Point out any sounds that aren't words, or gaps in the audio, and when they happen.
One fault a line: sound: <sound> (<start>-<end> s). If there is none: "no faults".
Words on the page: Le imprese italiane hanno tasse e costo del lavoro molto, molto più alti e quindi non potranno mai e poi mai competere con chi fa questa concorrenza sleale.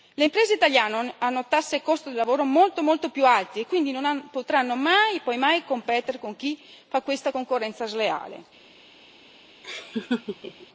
sound: laugh (9.6-10.7 s)